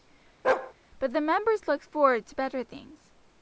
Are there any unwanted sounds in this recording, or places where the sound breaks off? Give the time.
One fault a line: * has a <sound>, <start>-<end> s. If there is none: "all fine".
* has a bark, 0.4-0.7 s